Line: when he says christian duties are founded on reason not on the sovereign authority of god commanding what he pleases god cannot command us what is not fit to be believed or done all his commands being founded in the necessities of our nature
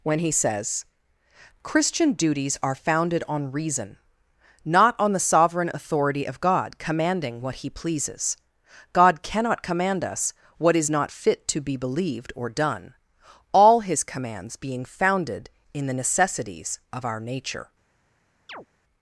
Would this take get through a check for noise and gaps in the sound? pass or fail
fail